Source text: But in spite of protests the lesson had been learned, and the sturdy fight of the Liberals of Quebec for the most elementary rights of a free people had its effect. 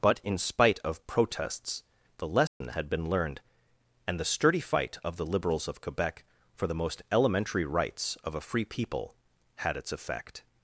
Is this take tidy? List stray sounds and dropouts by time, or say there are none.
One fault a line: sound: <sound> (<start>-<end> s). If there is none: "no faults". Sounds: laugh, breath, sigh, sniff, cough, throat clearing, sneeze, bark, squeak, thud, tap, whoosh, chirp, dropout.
sound: dropout (2.5-2.6 s)